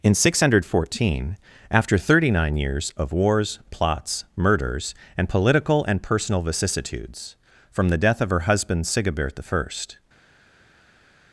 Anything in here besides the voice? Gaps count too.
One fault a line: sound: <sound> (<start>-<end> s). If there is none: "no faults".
no faults